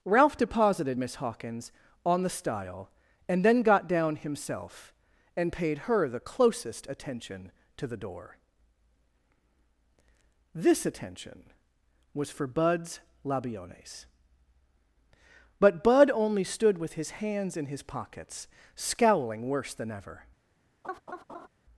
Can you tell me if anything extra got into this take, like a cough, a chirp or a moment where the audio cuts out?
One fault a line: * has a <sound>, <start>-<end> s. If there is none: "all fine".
* has a laugh, 20.8-21.5 s